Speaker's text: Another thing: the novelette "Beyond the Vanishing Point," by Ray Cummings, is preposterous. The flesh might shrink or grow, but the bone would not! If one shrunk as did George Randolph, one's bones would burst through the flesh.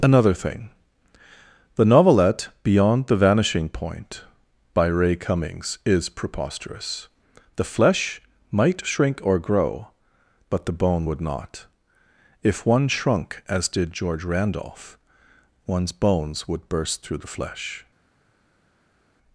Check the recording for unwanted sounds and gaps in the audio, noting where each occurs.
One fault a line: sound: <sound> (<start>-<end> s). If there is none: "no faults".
no faults